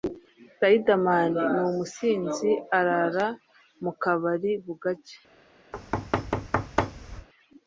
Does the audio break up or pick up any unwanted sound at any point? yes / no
yes